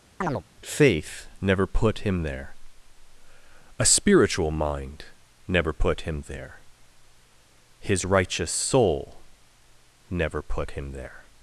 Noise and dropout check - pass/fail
fail